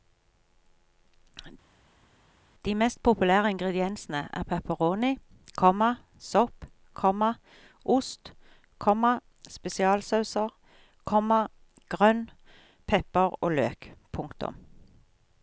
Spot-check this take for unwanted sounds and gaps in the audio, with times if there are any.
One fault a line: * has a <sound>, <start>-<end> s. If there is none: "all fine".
all fine